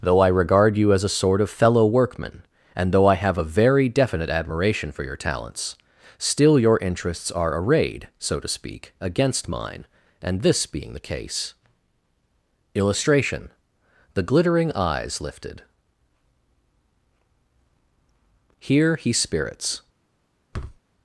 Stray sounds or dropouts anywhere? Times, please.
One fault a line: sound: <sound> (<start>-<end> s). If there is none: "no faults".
sound: thud (20.5-20.8 s)